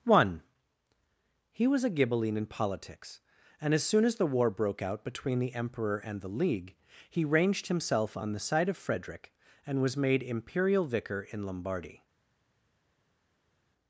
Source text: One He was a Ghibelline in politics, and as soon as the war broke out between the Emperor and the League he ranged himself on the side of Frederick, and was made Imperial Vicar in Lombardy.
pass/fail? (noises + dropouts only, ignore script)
pass